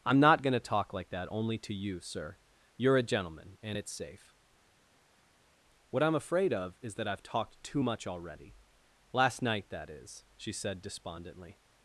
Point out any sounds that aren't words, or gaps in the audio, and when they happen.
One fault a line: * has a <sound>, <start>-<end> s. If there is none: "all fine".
all fine